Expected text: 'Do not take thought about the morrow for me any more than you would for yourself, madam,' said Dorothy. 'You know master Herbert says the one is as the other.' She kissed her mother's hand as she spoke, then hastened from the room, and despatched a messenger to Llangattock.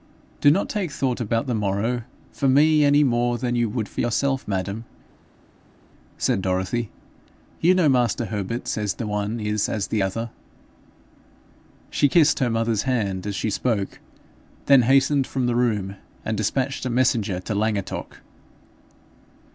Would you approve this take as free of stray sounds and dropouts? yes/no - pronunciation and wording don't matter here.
yes